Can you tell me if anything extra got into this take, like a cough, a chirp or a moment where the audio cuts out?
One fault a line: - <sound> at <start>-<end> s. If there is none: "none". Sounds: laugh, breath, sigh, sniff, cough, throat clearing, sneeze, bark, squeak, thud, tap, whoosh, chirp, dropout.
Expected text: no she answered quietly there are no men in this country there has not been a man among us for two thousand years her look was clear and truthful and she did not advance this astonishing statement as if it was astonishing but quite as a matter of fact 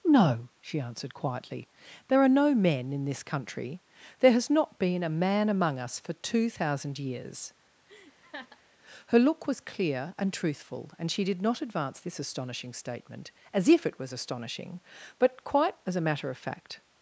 - laugh at 7.9-8.6 s